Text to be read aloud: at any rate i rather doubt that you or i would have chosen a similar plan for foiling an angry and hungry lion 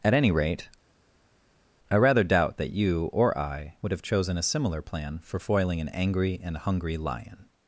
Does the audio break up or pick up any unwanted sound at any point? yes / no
no